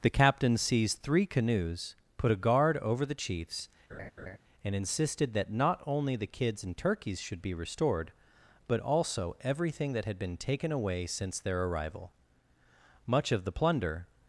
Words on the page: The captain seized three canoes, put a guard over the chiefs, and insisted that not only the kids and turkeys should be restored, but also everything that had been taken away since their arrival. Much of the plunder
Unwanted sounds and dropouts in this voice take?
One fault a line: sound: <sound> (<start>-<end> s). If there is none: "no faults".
sound: laugh (3.9-4.4 s)